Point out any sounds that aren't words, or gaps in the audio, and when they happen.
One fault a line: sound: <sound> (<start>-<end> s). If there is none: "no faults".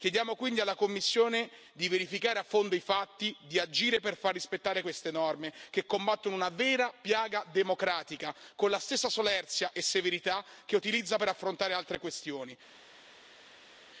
no faults